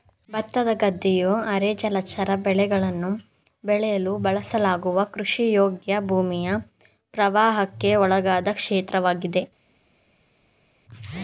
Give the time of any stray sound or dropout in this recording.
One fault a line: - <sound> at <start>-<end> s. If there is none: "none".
none